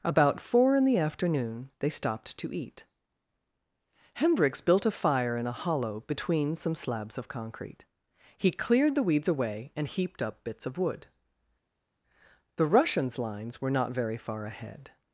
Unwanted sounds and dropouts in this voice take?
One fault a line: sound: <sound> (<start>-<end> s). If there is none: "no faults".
no faults